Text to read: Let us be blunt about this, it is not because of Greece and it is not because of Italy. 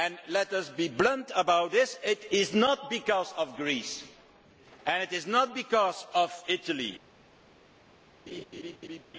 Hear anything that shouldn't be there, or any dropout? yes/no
yes